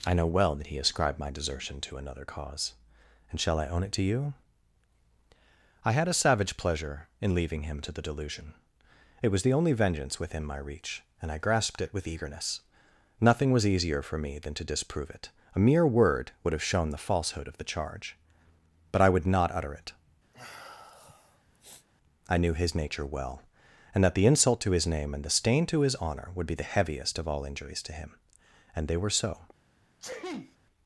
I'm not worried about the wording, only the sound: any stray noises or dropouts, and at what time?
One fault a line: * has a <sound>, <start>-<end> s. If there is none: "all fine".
* has a sniff, 20.3-21.9 s
* has a sneeze, 30.0-30.6 s